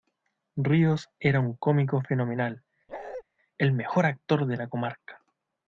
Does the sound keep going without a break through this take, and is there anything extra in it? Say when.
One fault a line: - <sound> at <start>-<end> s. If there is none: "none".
- bark at 2.9-3.2 s